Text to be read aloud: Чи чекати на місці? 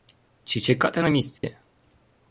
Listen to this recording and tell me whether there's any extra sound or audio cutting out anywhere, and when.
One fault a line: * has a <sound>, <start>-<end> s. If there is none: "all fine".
* has a dropout, 1.4-1.4 s